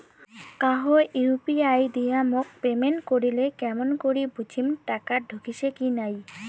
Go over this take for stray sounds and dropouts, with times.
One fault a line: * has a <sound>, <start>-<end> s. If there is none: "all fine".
all fine